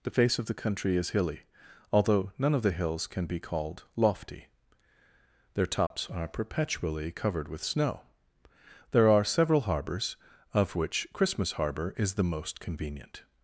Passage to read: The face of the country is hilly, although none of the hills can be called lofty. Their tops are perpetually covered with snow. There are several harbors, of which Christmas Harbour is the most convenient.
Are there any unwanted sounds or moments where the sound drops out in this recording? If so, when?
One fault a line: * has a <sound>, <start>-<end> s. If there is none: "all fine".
* has a dropout, 5.9-5.9 s